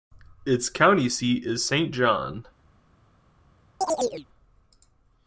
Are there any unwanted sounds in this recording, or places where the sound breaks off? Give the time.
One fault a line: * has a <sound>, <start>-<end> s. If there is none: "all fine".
* has a chirp, 3.8-4.3 s